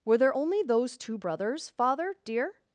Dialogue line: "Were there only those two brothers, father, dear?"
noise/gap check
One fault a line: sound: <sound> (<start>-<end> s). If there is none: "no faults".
no faults